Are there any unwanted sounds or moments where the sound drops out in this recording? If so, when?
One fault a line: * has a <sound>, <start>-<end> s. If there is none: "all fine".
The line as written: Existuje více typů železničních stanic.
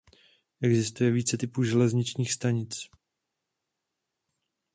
all fine